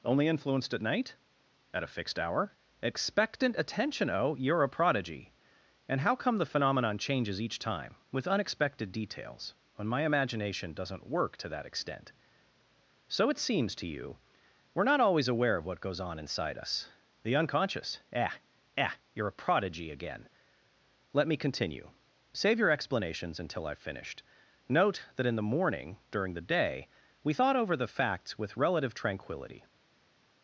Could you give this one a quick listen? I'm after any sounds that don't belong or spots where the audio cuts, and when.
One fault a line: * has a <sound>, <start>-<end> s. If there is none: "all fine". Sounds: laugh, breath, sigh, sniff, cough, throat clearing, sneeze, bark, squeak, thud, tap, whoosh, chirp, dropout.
all fine